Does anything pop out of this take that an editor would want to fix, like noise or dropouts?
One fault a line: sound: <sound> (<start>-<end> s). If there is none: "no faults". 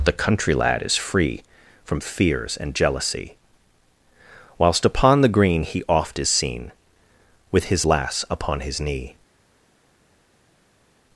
no faults